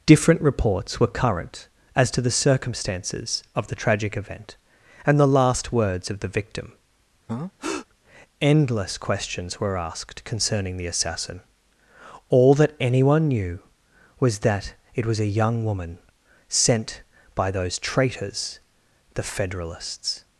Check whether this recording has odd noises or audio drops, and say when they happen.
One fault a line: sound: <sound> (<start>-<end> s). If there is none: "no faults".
sound: breath (7.3-7.9 s)